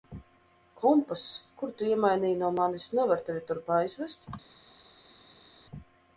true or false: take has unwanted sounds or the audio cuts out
false